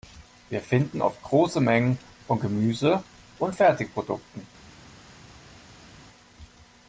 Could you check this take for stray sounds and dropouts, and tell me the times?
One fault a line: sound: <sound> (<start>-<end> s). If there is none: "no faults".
no faults